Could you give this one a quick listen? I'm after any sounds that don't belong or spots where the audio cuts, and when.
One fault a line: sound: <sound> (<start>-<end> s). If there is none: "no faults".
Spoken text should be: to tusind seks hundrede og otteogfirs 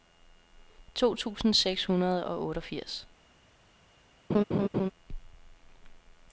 sound: laugh (4.3-4.9 s)